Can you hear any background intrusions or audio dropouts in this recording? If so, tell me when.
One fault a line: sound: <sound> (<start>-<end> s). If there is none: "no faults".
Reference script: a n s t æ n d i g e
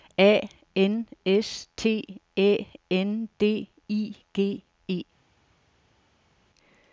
no faults